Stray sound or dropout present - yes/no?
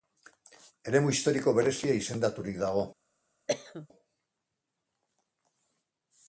yes